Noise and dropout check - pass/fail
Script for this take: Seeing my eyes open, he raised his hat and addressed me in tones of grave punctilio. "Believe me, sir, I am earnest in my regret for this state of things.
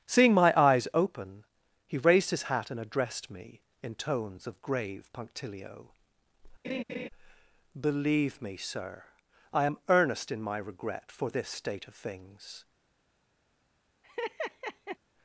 fail